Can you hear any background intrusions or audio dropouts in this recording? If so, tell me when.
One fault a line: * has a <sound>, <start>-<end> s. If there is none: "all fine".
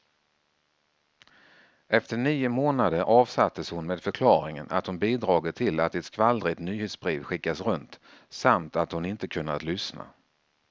all fine